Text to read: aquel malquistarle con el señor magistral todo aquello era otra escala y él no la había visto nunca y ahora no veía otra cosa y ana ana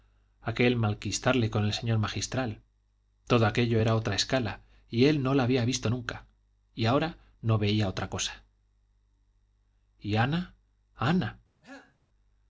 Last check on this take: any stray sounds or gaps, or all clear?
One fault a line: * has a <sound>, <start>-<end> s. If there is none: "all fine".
* has a cough, 11.6-12.0 s